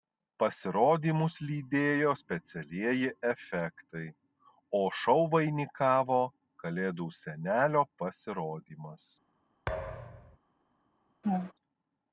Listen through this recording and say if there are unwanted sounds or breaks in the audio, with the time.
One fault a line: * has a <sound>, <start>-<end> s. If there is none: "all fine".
* has a thud, 9.7-10.4 s
* has a laugh, 11.2-11.5 s